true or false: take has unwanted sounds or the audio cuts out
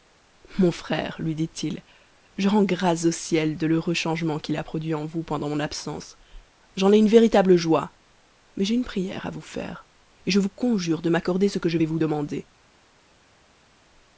false